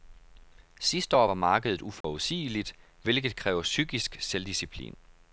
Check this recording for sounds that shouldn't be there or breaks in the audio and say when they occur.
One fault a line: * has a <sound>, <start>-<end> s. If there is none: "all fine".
* has a dropout, 2.0-2.0 s